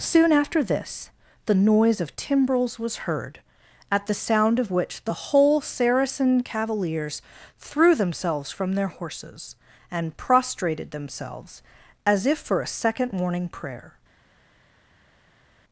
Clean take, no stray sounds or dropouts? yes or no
yes